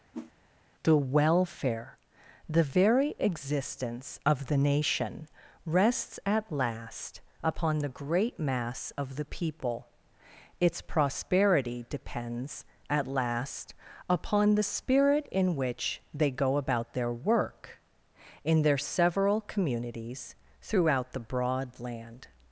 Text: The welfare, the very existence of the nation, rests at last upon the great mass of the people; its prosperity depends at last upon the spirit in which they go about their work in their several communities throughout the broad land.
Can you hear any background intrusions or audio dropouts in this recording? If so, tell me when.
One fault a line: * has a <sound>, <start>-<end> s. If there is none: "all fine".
* has a whoosh, 0.1-0.3 s